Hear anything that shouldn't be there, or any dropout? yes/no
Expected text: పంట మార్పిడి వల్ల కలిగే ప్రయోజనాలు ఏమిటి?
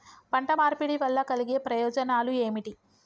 no